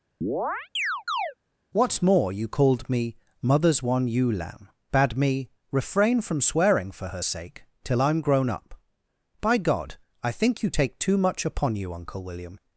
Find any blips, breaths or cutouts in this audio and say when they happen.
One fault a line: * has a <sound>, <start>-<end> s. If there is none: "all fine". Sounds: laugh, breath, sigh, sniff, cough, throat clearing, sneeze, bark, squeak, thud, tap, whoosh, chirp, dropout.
* has a chirp, 0.2-1.3 s